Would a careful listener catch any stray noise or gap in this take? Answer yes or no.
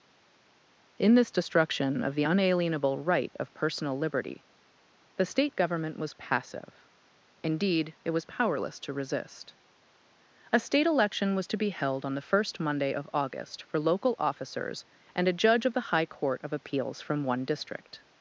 no